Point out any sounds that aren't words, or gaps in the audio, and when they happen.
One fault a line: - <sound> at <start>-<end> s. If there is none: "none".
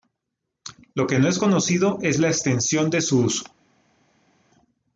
none